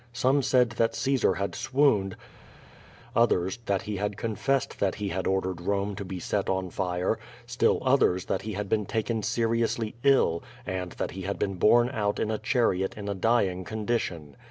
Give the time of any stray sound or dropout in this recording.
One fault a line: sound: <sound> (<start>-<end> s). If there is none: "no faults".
no faults